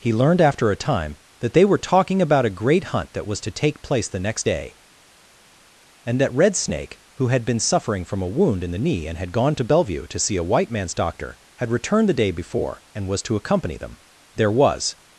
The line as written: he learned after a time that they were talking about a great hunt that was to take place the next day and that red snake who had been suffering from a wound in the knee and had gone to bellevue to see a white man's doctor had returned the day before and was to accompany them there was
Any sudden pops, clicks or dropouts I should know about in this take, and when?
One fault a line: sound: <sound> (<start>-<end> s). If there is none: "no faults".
no faults